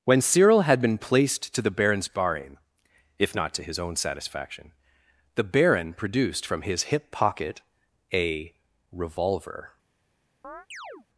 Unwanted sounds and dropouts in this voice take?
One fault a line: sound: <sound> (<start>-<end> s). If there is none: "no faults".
sound: chirp (10.4-11.1 s)